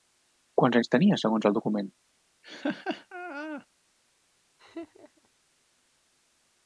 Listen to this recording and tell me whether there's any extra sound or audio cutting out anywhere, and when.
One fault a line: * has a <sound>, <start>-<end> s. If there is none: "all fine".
* has a laugh, 2.4-3.7 s
* has a laugh, 4.6-5.3 s